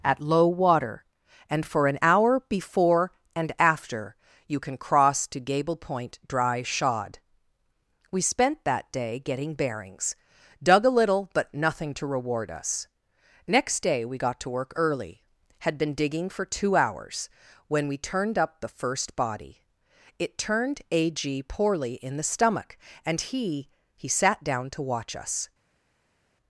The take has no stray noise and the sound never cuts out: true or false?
true